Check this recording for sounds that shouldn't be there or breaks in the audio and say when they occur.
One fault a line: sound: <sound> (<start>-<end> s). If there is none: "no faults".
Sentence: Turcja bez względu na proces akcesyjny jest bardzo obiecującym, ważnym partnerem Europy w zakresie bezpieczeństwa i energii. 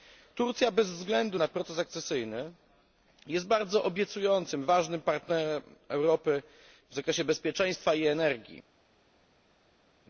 no faults